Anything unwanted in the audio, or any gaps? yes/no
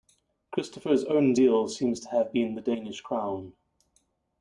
no